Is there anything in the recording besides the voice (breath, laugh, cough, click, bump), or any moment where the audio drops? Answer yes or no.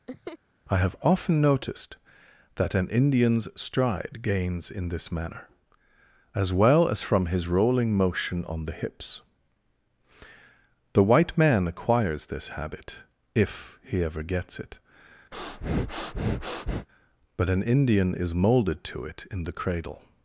yes